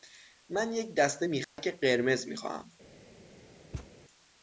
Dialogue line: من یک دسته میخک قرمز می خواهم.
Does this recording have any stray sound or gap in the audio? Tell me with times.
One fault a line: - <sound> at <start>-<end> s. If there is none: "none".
- dropout at 1.4-1.6 s
- thud at 3.7-3.9 s